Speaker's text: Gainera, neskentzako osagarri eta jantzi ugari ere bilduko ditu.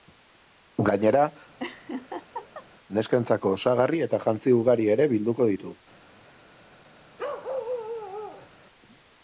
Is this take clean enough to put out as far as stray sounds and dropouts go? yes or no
no